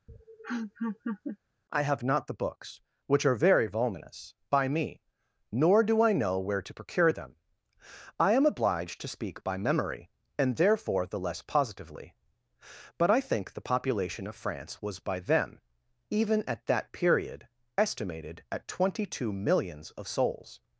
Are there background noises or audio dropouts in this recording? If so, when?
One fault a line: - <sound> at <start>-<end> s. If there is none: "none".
- laugh at 0.1-1.4 s